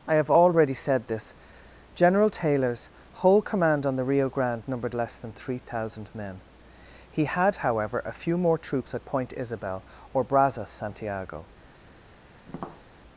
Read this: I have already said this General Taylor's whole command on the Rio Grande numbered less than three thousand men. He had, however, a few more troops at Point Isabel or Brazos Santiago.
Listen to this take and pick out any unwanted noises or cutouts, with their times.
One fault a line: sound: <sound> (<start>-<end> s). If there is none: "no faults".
sound: tap (12.5-12.8 s)